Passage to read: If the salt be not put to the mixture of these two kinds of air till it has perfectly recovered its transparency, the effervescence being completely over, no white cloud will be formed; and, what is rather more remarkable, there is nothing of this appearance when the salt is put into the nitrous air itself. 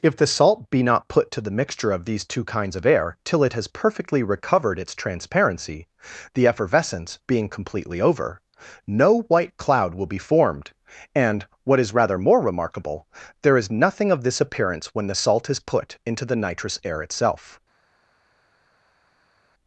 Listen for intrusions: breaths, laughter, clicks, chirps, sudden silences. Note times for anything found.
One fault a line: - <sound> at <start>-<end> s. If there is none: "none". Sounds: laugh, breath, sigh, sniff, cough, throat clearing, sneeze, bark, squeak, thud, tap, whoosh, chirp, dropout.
none